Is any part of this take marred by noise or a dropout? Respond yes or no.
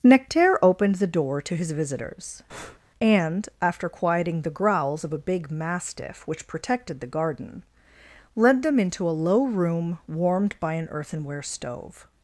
yes